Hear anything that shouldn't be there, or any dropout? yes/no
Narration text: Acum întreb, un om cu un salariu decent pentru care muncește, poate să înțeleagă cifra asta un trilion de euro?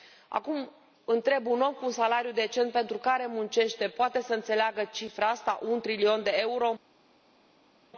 no